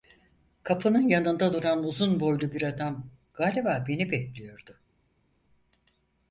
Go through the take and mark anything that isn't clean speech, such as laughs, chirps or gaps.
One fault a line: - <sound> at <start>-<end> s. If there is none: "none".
none